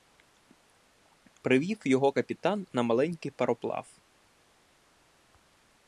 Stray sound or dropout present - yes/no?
no